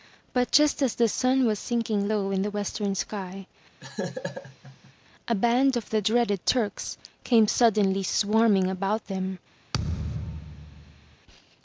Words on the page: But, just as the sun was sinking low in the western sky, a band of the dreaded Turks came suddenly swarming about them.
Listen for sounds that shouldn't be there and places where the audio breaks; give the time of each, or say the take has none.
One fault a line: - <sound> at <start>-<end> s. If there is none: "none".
- laugh at 3.8-4.9 s
- thud at 9.7-11.2 s